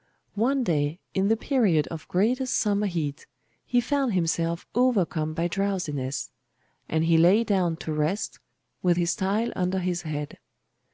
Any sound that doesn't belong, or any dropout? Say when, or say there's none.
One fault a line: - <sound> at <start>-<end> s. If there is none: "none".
none